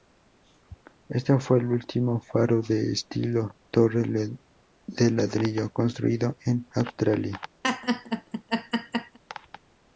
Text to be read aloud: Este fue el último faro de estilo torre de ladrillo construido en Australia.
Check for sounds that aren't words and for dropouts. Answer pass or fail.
fail